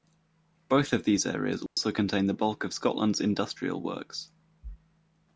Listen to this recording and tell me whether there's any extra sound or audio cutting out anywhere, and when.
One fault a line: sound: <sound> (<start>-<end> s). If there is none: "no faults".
sound: dropout (1.7-1.8 s)